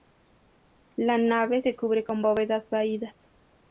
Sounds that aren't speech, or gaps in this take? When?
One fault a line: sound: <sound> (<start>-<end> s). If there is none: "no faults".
no faults